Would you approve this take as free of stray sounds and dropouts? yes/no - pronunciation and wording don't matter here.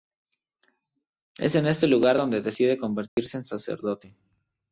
no